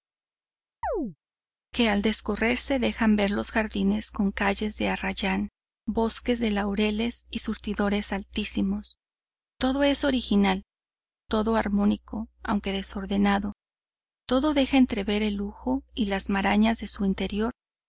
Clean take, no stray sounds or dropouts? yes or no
no